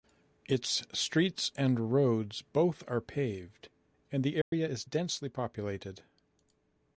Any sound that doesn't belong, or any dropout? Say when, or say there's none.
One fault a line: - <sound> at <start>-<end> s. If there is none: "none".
- dropout at 4.4-4.5 s